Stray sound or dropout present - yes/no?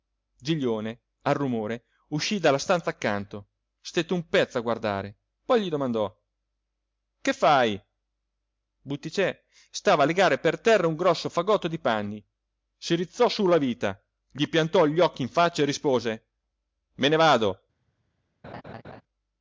yes